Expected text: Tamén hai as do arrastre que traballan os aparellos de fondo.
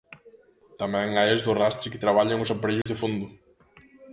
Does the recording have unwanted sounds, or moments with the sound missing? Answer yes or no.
yes